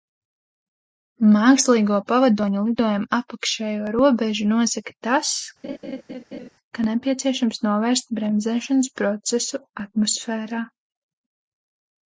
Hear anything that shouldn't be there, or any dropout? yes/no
yes